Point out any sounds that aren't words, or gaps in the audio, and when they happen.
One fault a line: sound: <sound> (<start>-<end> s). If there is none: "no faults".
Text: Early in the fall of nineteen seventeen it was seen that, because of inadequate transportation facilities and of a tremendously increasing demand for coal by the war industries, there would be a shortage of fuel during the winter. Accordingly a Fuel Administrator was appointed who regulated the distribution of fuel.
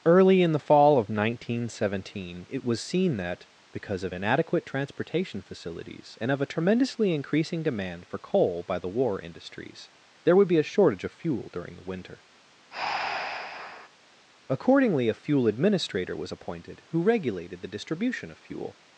sound: breath (12.7-13.9 s)